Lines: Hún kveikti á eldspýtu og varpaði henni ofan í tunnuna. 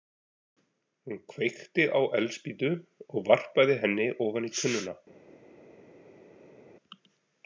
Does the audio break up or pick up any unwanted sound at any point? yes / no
no